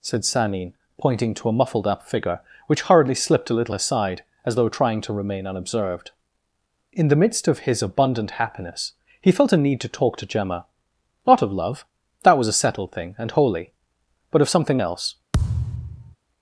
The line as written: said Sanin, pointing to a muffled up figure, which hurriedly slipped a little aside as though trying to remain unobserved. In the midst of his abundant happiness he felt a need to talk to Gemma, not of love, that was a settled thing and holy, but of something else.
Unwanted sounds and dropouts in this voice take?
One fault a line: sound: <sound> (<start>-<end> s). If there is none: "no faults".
sound: thud (15.3-16.2 s)